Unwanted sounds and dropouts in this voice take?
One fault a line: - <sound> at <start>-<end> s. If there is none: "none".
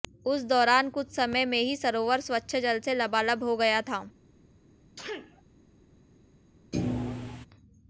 - sneeze at 4.9-5.4 s
- thud at 6.7-7.5 s